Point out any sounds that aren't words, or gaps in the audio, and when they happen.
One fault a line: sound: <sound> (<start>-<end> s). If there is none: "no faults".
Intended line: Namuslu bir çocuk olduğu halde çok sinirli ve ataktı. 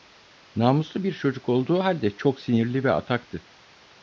no faults